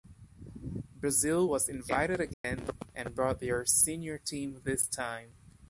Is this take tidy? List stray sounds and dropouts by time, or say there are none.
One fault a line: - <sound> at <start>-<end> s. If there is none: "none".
- dropout at 2.3-2.4 s